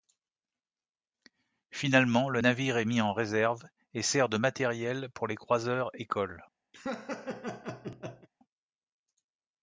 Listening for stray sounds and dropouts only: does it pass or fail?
fail